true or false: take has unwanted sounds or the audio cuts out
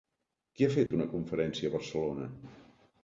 true